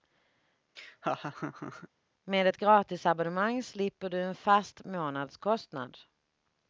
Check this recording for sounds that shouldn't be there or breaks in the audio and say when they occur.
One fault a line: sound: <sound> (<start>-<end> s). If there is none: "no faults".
sound: laugh (0.8-1.9 s)